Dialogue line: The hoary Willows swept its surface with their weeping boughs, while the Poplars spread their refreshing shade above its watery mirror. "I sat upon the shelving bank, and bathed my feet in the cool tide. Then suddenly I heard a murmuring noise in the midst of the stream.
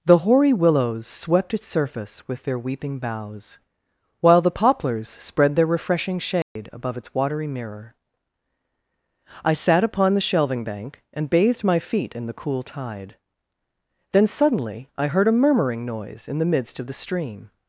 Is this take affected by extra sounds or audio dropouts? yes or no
yes